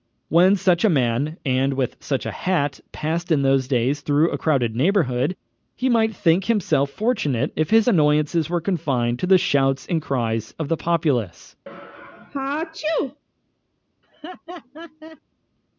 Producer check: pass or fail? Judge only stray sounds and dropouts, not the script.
fail